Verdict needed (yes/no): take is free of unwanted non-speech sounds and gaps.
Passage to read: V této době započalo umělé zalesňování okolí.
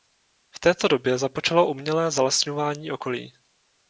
yes